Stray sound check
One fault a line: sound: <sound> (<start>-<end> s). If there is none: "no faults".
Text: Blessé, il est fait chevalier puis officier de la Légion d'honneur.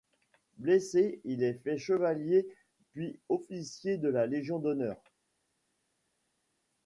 no faults